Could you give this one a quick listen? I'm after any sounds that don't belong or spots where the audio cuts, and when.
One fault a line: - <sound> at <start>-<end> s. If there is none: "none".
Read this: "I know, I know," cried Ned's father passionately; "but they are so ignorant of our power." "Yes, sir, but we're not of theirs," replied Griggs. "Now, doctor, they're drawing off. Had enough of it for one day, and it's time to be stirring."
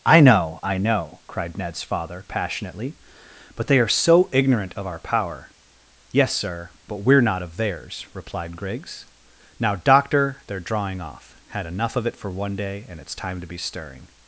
none